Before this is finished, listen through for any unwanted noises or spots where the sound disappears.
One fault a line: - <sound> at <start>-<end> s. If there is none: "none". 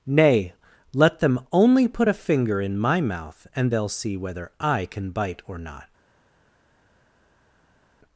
none